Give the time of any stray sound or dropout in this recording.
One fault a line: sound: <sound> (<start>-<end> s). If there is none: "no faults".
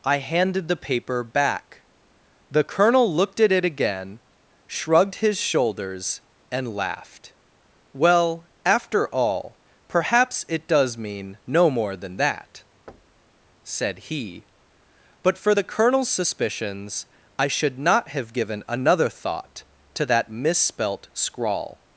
sound: thud (12.9-13.3 s)